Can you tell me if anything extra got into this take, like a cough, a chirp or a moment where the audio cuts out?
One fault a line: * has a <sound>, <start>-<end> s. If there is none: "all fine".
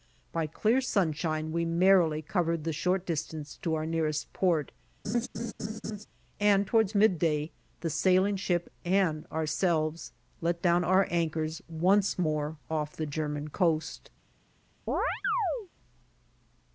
* has a laugh, 5.0-6.1 s
* has a chirp, 14.9-15.7 s